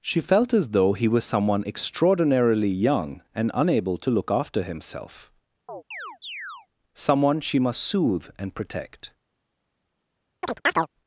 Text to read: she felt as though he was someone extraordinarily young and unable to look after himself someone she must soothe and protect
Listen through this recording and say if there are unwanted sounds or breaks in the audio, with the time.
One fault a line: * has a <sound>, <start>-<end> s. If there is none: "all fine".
* has a chirp, 5.7-6.7 s
* has a chirp, 10.4-10.9 s